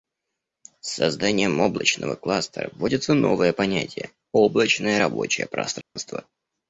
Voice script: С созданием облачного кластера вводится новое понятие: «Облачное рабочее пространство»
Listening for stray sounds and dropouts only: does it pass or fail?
fail